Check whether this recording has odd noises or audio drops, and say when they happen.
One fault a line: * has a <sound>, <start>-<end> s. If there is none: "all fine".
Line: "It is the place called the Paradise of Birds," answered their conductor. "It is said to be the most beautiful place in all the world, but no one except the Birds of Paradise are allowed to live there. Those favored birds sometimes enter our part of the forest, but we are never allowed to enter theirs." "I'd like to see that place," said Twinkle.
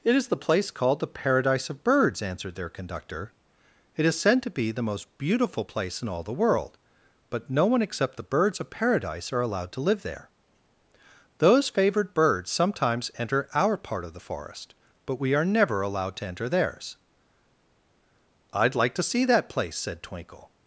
all fine